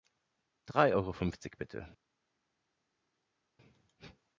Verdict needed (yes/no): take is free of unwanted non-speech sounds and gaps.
yes